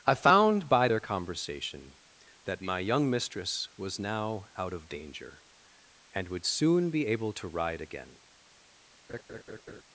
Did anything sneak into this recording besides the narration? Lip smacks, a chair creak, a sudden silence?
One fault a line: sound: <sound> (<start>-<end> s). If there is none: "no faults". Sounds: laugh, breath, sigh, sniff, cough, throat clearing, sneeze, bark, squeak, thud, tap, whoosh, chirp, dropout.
sound: laugh (9.1-9.8 s)